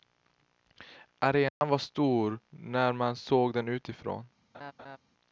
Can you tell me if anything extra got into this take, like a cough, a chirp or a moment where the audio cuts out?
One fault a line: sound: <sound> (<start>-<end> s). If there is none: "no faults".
sound: dropout (1.5-1.6 s)
sound: laugh (4.5-5.0 s)